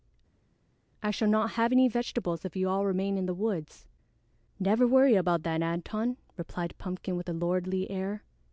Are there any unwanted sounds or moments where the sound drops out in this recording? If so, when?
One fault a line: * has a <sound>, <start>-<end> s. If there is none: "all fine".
all fine